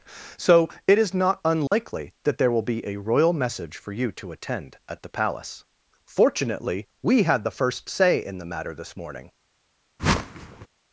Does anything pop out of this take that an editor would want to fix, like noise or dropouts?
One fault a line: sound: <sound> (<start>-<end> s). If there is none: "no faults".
sound: dropout (1.7-1.7 s)
sound: whoosh (10.0-10.7 s)